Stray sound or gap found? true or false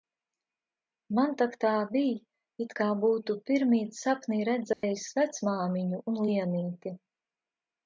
true